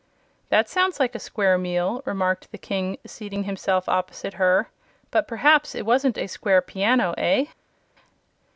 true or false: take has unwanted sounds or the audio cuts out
false